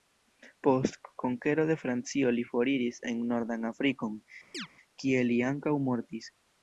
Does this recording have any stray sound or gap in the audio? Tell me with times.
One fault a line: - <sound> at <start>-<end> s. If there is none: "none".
- chirp at 4.5-4.7 s